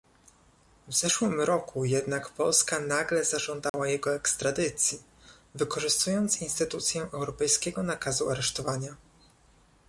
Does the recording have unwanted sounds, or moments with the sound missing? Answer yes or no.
yes